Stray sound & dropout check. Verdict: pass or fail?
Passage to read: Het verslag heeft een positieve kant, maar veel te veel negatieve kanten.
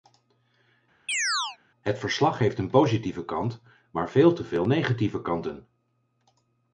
fail